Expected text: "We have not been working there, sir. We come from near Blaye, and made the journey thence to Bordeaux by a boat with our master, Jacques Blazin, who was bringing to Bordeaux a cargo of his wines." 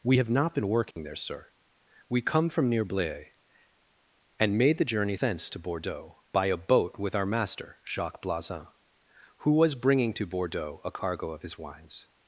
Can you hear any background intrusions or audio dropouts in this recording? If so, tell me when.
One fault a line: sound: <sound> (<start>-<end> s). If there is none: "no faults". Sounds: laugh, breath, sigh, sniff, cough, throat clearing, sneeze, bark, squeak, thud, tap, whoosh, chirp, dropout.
sound: dropout (0.9-1.0 s)